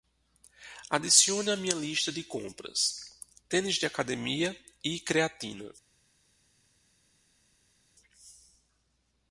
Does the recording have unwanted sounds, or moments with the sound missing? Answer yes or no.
no